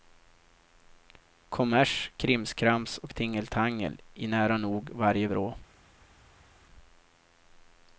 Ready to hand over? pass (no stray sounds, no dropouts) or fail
pass